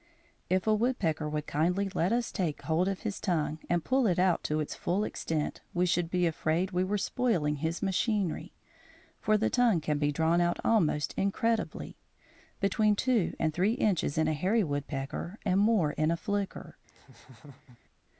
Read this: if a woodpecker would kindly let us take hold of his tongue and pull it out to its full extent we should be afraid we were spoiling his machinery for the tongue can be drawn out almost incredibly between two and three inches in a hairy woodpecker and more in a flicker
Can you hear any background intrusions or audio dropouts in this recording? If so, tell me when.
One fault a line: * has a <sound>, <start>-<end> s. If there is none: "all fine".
* has a laugh, 16.9-17.8 s